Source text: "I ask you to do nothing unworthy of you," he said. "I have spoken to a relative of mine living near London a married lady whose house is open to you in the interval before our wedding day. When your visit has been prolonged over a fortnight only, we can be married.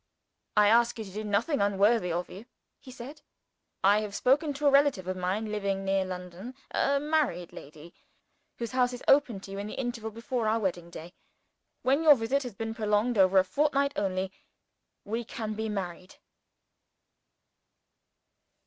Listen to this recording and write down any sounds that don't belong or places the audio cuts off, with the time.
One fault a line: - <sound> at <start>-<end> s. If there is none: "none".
none